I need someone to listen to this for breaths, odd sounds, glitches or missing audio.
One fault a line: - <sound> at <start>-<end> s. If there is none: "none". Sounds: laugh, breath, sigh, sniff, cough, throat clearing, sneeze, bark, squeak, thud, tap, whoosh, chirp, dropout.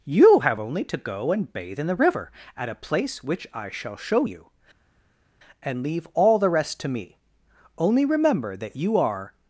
none